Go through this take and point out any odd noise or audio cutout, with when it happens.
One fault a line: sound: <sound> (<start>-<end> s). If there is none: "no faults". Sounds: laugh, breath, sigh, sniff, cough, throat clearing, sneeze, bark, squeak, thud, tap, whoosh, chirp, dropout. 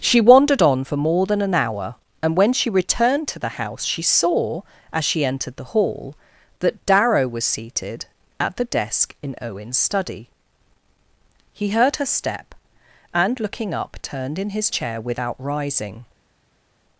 no faults